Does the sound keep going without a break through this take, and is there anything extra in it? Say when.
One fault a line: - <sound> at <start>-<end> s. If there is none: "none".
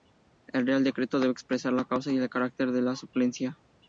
none